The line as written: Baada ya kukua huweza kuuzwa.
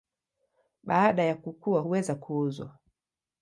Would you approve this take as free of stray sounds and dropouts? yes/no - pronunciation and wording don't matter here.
yes